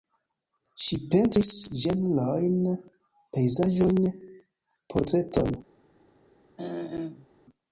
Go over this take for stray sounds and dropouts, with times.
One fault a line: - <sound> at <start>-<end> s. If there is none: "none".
- throat clearing at 6.6-7.3 s